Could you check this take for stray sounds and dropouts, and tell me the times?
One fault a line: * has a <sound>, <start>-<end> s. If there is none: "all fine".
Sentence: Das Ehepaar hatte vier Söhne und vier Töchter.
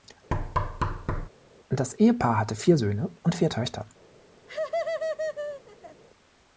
* has a thud, 0.3-1.3 s
* has a laugh, 4.5-6.0 s